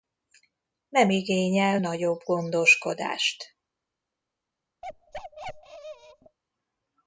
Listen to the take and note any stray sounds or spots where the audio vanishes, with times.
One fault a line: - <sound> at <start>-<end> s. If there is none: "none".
- bark at 4.8-6.4 s